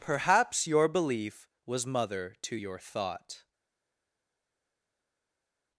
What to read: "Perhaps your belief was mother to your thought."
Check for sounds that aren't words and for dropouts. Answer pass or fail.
pass